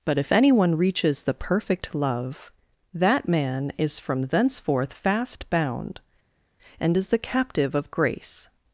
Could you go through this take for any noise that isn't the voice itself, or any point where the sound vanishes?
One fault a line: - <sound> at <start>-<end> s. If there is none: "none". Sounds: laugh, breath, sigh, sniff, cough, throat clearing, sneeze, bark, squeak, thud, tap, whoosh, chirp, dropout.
none